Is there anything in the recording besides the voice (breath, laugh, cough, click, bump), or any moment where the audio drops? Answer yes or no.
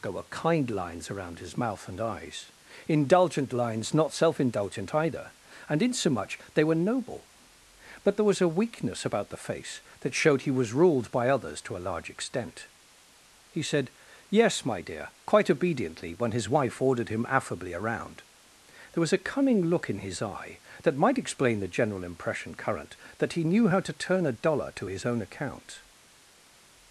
no